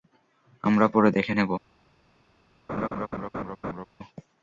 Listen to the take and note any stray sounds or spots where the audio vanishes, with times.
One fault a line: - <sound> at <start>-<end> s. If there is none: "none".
- laugh at 2.7-3.9 s